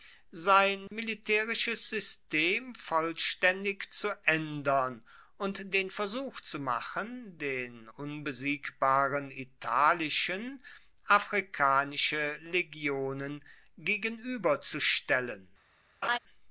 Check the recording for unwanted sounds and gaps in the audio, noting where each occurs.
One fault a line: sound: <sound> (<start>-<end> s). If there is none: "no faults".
sound: dropout (0.9-0.9 s)
sound: laugh (16.0-16.2 s)